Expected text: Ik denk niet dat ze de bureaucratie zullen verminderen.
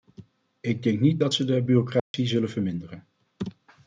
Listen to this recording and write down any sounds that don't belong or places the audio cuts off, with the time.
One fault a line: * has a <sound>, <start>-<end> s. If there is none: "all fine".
* has a dropout, 2.0-2.1 s